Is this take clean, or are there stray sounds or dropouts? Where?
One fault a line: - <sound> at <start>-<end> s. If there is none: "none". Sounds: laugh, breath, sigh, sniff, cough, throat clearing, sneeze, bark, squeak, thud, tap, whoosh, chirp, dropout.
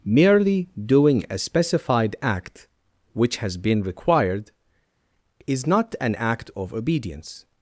none